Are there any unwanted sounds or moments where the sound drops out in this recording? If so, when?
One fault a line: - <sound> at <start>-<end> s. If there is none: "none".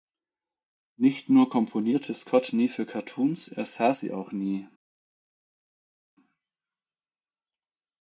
none